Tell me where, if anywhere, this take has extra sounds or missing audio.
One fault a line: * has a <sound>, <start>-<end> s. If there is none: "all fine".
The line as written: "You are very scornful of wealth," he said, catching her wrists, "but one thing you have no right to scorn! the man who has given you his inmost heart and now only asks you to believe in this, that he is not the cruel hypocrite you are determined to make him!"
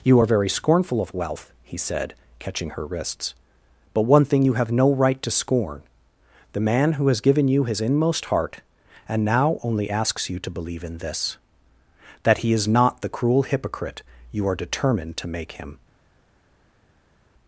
all fine